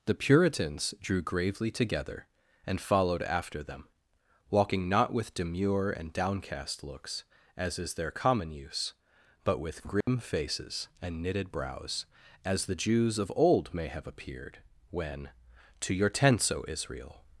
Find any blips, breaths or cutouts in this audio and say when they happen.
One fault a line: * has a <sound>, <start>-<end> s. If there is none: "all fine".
* has a dropout, 10.0-10.1 s